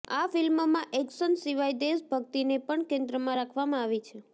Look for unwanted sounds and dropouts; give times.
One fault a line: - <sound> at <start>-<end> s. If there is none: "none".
none